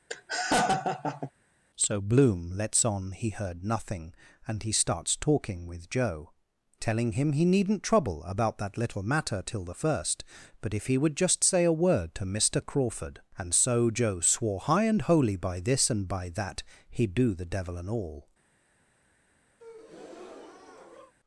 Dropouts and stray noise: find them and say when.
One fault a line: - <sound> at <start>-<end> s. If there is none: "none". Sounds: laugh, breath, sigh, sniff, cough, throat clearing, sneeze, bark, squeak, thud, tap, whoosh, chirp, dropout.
- laugh at 0.1-1.3 s
- breath at 19.6-21.1 s